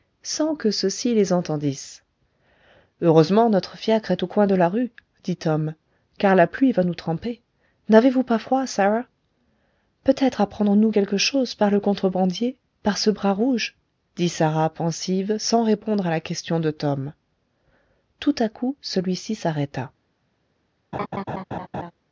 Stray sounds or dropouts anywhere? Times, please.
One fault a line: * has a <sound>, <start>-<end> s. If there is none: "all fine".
* has a laugh, 20.9-21.9 s